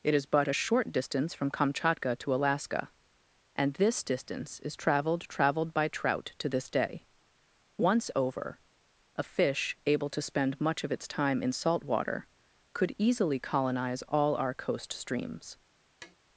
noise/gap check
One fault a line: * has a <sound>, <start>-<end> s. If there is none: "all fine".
* has a tap, 16.0-16.2 s